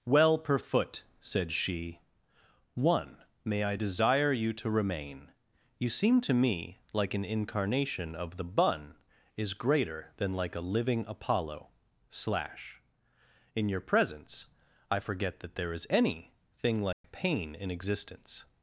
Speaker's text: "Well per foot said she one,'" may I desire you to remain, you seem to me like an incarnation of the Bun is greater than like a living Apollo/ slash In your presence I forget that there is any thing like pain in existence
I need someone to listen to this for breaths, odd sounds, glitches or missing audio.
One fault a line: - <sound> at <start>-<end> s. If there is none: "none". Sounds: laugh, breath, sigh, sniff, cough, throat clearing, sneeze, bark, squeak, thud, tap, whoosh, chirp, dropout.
- dropout at 16.9-17.0 s